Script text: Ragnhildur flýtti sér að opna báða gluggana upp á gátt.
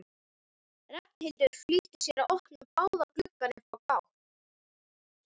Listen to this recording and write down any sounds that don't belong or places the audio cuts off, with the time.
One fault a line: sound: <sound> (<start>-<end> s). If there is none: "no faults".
no faults